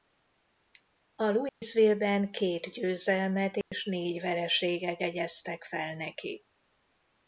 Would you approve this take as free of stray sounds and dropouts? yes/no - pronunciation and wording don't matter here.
no